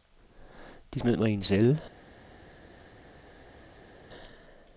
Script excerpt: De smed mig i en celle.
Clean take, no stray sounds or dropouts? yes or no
yes